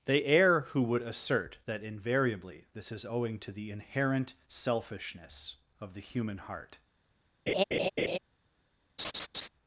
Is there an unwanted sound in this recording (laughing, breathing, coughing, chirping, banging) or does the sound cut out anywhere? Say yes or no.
yes